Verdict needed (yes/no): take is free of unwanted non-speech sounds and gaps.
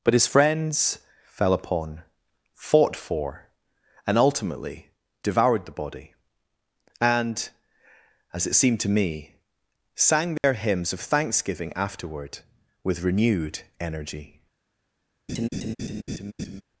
no